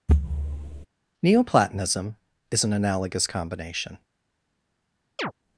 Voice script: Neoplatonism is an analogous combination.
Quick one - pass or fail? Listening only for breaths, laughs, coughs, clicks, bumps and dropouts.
fail